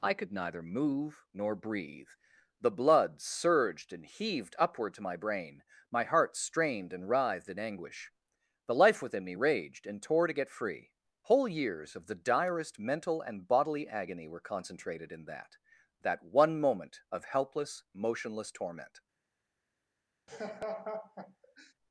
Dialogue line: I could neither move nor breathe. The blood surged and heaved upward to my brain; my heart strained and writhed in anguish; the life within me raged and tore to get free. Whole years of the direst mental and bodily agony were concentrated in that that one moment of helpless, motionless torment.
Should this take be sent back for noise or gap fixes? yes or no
yes